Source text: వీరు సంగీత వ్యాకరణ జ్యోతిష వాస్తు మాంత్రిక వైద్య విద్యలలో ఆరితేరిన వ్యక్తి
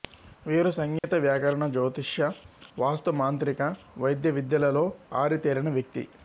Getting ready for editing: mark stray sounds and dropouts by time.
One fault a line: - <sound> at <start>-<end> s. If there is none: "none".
- dropout at 1.0-1.0 s